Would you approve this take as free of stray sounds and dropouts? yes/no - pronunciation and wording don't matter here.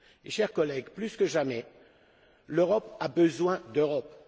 yes